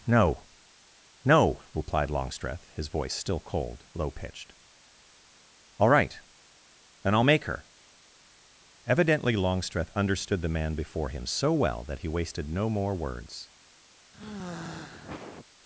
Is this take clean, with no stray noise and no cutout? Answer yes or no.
no